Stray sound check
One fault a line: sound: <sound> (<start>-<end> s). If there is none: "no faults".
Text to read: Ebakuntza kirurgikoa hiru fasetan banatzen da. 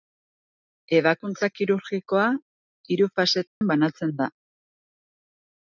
sound: dropout (3.5-3.6 s)